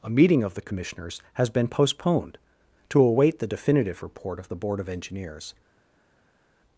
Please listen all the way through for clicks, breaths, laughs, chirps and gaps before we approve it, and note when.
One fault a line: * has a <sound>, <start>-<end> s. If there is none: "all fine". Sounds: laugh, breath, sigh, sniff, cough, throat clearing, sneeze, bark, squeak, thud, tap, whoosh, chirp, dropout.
all fine